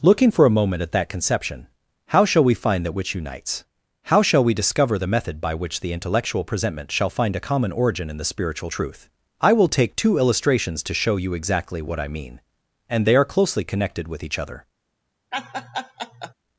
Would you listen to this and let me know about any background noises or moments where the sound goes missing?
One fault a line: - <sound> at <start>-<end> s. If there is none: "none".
- laugh at 15.3-16.3 s